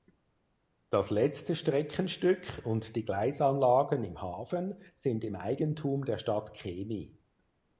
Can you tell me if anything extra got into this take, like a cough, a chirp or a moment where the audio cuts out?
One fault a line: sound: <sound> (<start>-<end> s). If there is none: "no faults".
no faults